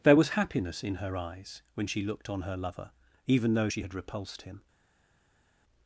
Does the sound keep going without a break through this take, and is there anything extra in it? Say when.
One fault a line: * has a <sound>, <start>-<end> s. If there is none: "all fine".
all fine